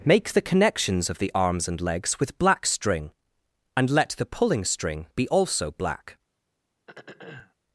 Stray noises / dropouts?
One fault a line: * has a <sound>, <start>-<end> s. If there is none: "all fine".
* has a throat clearing, 6.9-7.5 s